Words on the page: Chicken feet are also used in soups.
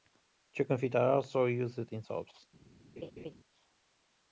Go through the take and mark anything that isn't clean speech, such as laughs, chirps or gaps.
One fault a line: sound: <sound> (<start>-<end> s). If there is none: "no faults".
sound: laugh (3.0-3.3 s)